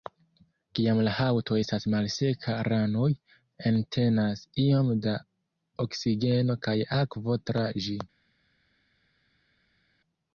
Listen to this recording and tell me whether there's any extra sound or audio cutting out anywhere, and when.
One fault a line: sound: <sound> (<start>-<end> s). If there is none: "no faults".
no faults